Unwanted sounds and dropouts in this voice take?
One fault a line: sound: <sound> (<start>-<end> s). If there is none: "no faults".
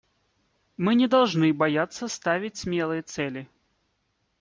no faults